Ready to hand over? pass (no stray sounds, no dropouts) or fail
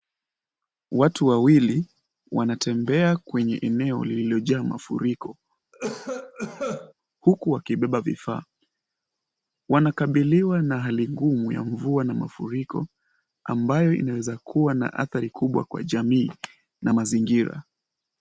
fail